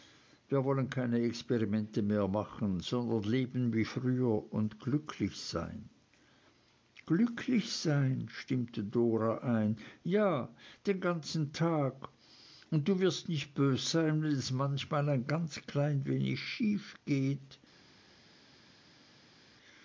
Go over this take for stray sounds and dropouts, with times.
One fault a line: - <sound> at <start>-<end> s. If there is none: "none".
none